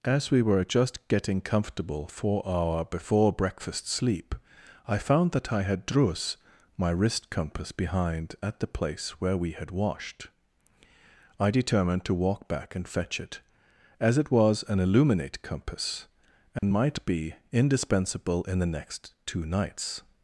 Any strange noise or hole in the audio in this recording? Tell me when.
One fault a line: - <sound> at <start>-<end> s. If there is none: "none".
- dropout at 16.6-16.6 s